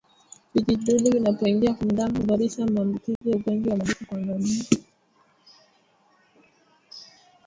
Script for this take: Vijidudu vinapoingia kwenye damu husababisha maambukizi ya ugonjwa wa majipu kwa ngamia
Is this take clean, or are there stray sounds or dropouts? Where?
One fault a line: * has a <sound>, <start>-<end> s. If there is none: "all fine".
* has a dropout, 3.2-3.2 s